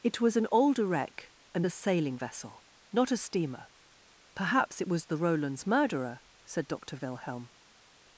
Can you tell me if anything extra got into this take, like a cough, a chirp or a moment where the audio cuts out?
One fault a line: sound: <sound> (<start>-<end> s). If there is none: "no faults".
no faults